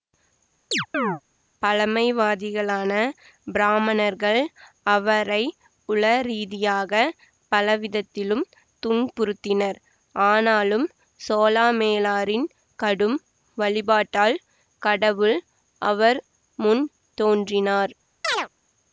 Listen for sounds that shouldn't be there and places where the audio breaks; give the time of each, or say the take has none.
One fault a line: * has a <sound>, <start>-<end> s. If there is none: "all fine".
* has a chirp, 0.7-1.2 s
* has a chirp, 18.2-18.5 s